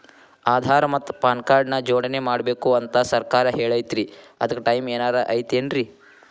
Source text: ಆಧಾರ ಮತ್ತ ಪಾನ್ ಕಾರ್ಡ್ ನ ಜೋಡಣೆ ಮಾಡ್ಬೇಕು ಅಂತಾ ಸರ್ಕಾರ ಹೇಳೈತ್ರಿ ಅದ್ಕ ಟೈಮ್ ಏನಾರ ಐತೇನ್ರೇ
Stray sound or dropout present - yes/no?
no